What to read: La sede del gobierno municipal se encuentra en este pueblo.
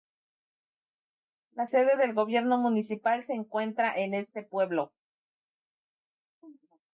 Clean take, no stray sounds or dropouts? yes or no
yes